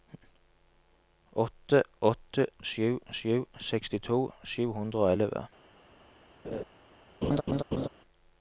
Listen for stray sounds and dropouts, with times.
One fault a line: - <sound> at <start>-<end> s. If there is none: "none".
- laugh at 6.4-6.6 s
- laugh at 7.2-7.9 s